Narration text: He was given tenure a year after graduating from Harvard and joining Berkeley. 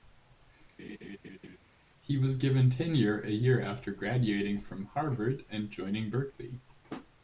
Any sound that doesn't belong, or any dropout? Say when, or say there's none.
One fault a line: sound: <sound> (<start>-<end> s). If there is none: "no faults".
sound: laugh (0.8-1.6 s)